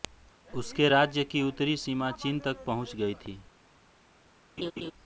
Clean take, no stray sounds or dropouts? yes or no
no